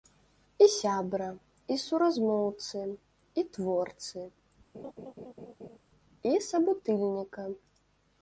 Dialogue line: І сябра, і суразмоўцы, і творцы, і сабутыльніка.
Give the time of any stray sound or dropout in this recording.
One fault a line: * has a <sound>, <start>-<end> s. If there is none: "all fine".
* has a laugh, 4.7-5.8 s